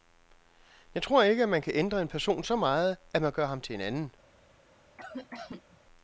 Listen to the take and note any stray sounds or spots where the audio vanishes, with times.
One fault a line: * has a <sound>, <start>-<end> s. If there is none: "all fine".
* has a cough, 5.0-5.8 s